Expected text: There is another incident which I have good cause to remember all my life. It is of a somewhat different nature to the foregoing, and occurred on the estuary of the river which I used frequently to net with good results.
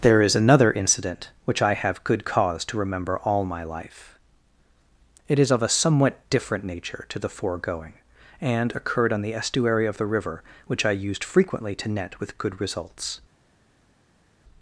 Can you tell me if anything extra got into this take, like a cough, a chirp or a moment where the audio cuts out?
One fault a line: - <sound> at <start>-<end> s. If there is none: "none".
none